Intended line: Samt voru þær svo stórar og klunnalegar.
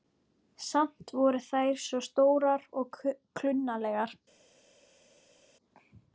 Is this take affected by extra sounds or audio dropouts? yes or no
no